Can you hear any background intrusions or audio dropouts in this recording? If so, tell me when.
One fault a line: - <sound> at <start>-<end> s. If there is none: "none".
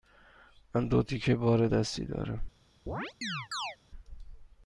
- chirp at 2.9-3.8 s